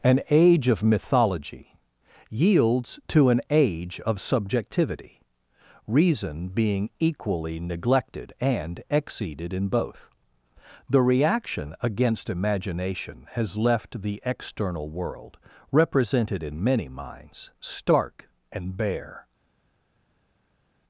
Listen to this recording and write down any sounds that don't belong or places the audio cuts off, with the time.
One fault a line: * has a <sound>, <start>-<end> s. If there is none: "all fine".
all fine